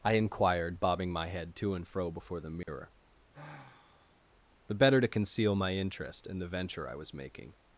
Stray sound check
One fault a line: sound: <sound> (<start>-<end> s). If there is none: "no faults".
sound: dropout (2.6-2.7 s)
sound: sigh (3.3-4.2 s)